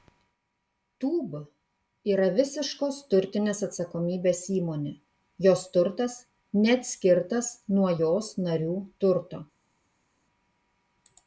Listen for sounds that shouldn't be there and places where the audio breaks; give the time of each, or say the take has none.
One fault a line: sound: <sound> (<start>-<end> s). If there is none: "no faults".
no faults